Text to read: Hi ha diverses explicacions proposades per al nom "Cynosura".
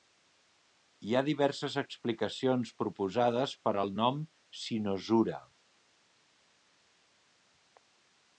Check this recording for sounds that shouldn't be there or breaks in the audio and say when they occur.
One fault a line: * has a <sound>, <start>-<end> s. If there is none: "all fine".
all fine